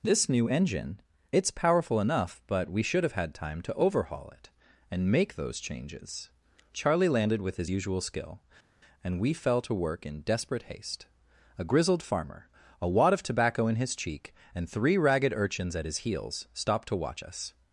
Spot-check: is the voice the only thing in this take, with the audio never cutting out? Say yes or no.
yes